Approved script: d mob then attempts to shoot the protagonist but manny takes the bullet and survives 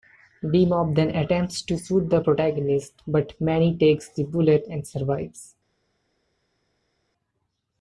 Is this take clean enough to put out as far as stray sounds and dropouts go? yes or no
yes